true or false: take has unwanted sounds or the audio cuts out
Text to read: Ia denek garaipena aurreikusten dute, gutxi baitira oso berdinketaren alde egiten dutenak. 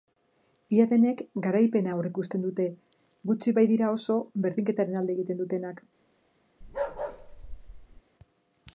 true